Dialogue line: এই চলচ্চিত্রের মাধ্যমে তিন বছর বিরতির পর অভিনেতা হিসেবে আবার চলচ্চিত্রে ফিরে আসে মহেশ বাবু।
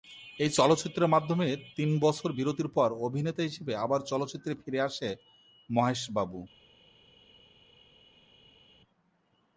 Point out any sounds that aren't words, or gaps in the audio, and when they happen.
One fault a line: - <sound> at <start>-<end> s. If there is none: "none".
none